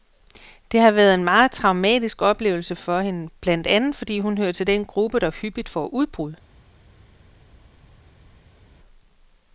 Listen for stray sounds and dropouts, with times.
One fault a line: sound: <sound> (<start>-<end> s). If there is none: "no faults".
no faults